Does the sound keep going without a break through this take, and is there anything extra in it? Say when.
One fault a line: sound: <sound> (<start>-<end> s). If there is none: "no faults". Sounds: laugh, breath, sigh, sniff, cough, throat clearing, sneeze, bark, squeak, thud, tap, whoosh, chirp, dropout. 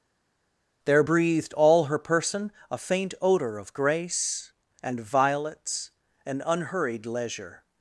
no faults